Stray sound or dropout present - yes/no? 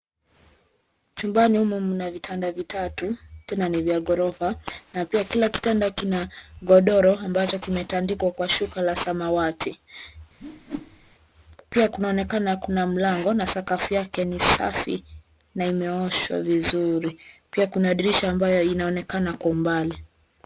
yes